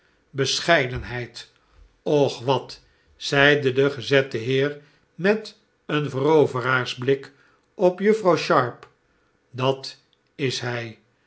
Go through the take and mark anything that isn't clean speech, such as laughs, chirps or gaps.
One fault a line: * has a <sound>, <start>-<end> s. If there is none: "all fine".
all fine